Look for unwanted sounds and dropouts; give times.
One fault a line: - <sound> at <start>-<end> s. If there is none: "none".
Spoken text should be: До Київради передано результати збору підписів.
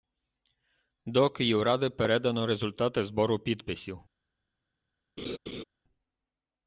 - laugh at 5.2-5.6 s